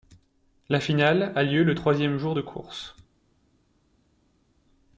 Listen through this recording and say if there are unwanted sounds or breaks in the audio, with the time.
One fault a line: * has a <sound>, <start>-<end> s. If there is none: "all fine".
all fine